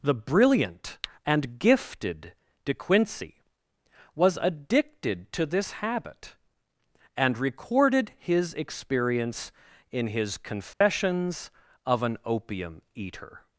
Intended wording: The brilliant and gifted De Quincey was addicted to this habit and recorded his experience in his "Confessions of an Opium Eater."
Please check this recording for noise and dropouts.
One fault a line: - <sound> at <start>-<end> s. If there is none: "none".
- dropout at 10.7-10.8 s